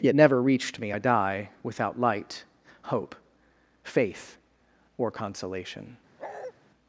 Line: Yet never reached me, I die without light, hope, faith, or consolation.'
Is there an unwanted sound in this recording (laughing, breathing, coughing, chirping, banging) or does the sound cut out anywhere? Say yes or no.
yes